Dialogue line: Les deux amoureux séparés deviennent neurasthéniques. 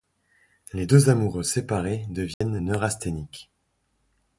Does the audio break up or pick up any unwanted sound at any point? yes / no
yes